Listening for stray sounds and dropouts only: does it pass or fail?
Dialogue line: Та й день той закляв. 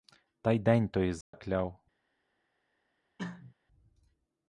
fail